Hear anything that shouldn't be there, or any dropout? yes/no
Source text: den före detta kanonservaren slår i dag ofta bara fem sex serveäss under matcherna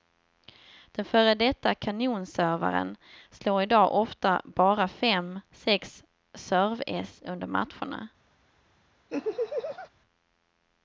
yes